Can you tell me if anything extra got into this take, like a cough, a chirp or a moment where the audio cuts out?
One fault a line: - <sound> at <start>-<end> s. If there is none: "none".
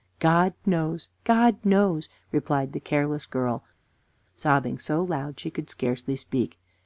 none